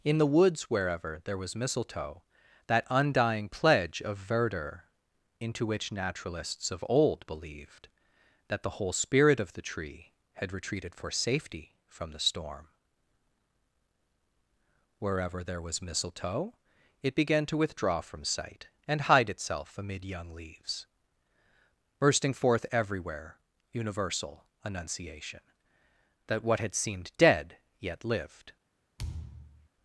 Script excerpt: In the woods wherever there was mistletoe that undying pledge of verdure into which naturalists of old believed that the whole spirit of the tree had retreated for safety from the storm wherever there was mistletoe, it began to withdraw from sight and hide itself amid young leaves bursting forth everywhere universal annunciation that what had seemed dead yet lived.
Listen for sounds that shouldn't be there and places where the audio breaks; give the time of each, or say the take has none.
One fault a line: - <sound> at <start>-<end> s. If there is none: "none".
- thud at 29.0-29.7 s